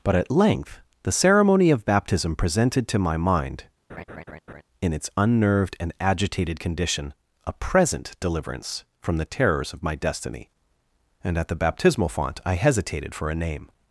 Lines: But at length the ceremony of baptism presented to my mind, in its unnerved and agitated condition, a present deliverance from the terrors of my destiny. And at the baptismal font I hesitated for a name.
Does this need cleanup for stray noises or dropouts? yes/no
yes